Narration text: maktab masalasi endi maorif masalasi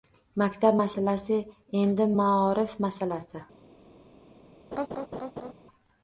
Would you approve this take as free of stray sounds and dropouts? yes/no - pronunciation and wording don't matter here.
no